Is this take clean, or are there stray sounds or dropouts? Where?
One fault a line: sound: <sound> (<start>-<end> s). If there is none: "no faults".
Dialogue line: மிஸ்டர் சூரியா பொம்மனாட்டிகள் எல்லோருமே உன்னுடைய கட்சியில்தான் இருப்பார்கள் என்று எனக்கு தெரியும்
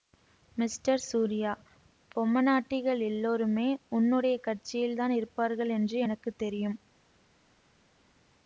no faults